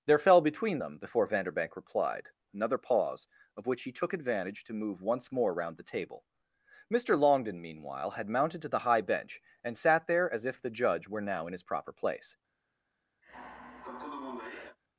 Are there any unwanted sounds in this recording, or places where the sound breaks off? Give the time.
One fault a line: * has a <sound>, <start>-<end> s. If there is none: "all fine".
* has a sigh, 13.2-14.8 s